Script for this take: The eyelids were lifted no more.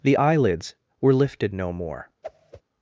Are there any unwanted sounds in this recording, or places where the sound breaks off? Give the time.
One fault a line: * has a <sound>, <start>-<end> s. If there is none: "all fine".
* has a whoosh, 2.2-2.6 s